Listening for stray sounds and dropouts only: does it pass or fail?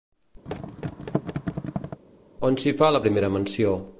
fail